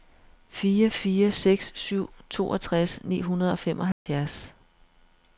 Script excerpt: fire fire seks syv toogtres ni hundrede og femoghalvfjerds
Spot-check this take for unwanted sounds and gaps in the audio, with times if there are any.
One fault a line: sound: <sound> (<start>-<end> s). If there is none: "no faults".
sound: dropout (3.9-4.1 s)